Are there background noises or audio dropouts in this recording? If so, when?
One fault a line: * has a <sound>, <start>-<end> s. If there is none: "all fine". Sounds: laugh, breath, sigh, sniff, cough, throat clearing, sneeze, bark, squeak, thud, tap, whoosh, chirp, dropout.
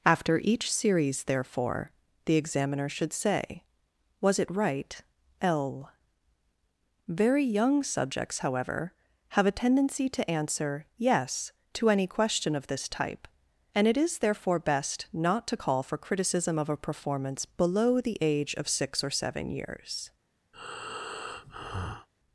* has a breath, 20.5-22.1 s